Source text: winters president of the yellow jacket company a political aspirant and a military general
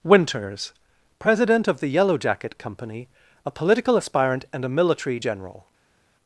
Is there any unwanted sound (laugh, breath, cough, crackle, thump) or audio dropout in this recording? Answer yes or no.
no